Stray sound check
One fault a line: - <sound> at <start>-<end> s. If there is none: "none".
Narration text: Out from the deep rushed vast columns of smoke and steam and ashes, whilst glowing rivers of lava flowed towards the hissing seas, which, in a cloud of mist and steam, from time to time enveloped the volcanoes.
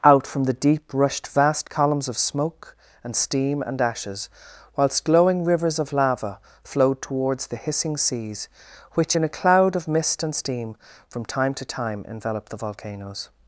none